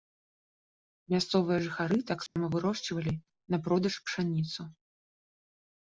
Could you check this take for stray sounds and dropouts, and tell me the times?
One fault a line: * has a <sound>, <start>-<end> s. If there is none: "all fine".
* has a dropout, 2.3-2.4 s